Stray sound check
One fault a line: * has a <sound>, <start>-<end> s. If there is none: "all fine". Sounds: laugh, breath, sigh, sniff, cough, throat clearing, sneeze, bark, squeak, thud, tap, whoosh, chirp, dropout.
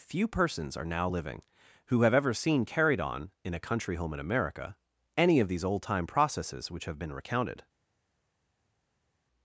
all fine